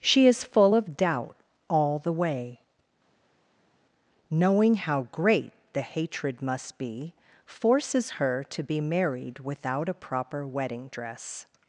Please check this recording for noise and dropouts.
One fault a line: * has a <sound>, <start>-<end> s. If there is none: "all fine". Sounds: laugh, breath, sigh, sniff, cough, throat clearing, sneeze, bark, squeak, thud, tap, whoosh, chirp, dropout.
all fine